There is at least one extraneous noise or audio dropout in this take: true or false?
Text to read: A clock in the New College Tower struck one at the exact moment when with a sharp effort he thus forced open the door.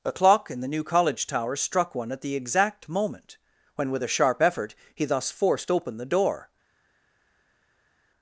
false